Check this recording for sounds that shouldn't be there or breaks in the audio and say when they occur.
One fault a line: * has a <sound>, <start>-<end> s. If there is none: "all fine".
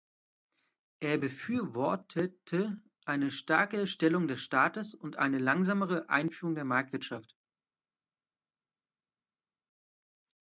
all fine